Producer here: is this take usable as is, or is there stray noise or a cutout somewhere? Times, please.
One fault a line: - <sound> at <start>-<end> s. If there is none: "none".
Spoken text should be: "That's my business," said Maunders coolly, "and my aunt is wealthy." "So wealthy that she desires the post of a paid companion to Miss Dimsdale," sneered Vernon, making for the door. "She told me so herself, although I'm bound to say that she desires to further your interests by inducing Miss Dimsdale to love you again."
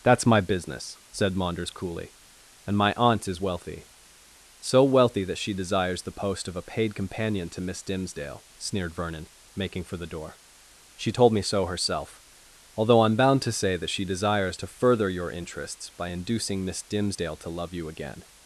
none